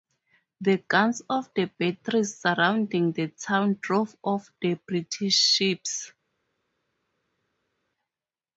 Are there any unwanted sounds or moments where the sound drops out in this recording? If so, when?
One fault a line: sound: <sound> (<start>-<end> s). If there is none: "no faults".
no faults